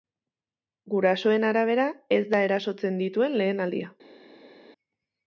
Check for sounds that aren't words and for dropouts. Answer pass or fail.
pass